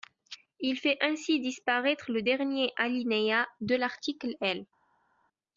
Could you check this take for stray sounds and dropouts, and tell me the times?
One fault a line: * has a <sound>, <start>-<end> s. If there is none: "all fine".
all fine